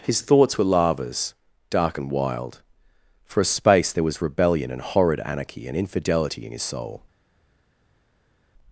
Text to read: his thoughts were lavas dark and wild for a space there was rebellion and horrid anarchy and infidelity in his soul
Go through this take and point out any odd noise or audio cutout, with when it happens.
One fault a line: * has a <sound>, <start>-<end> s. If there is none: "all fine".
all fine